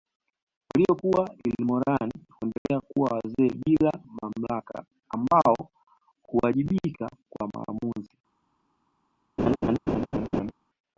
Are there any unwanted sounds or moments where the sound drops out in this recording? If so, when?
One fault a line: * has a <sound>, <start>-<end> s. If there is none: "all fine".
* has a dropout, 2.6-2.7 s
* has a laugh, 9.4-10.5 s